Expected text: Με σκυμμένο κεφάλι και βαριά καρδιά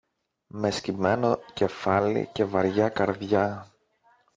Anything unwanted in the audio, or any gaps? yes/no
no